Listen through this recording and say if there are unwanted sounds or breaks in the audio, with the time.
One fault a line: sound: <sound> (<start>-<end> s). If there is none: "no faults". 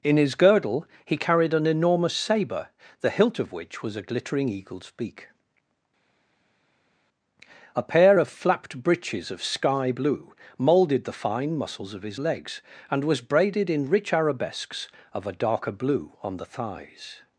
no faults